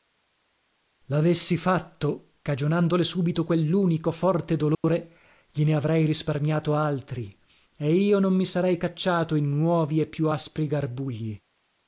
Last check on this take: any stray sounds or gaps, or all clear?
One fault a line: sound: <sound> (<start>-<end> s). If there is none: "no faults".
sound: dropout (4.7-4.8 s)